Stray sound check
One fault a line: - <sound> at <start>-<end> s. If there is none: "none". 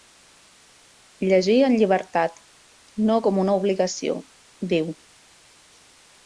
none